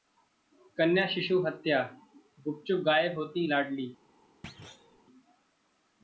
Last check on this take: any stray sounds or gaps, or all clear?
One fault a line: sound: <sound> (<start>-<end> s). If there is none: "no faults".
sound: thud (4.4-5.0 s)